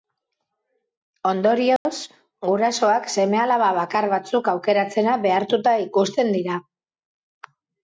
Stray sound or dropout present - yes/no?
yes